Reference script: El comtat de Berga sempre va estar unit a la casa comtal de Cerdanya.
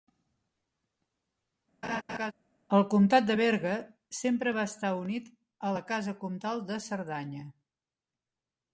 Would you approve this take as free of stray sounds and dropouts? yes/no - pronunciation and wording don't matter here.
no